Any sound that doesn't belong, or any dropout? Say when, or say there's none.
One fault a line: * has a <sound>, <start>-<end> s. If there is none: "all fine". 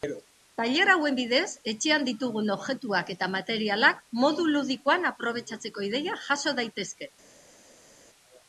all fine